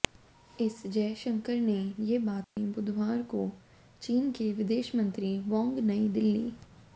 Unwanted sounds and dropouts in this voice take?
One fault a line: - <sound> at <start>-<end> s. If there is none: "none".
- dropout at 2.4-2.6 s